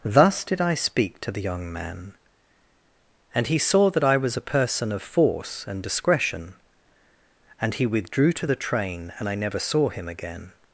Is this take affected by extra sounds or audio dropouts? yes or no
no